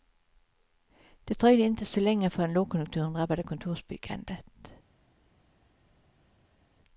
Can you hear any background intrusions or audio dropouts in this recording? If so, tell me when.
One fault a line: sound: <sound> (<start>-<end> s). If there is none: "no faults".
no faults